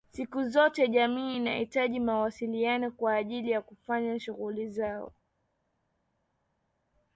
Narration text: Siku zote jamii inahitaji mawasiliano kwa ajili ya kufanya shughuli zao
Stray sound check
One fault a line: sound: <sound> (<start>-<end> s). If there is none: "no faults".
no faults